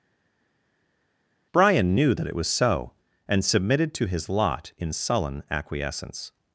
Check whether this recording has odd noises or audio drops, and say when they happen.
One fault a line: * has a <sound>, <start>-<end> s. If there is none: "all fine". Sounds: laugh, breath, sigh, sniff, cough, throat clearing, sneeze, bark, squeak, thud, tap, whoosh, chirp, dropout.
all fine